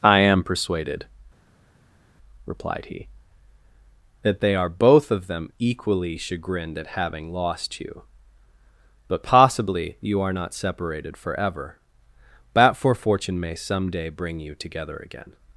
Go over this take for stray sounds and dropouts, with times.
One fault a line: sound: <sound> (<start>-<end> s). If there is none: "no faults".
no faults